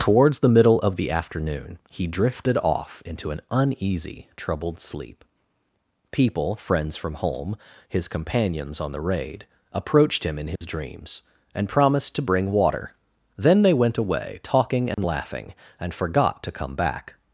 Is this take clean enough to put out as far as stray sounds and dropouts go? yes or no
no